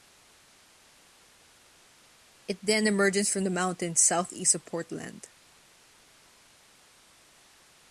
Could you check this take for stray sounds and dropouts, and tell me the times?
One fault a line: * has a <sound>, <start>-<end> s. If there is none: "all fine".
all fine